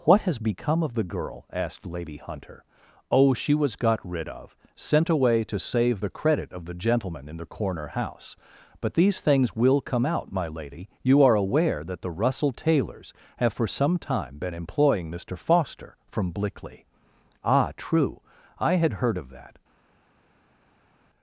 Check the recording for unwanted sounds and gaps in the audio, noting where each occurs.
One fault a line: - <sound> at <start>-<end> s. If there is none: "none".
none